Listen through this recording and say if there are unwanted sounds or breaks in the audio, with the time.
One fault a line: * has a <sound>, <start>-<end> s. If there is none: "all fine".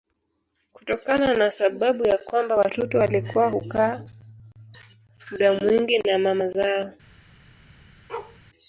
* has a bark, 8.1-8.4 s